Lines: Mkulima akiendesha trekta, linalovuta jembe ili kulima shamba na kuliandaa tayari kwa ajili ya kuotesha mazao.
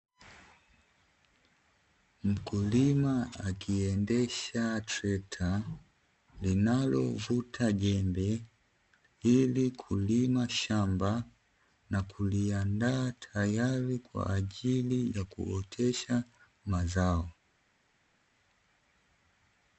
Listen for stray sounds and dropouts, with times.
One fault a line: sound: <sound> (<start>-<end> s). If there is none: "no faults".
no faults